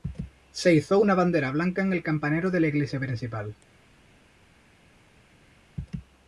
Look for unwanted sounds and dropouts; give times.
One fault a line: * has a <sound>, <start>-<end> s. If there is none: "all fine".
all fine